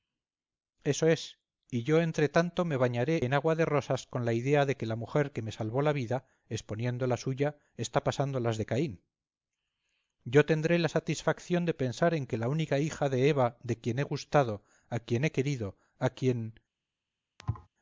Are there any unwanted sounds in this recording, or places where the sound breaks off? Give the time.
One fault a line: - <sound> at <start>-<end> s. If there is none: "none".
- thud at 17.4-17.7 s